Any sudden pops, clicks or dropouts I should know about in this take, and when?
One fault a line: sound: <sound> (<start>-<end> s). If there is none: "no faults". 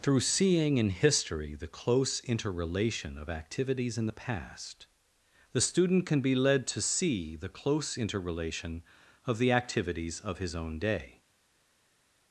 no faults